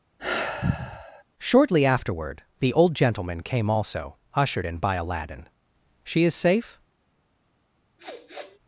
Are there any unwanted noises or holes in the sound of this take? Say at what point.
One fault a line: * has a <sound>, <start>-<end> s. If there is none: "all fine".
* has a sigh, 0.2-1.2 s
* has a sniff, 8.0-8.6 s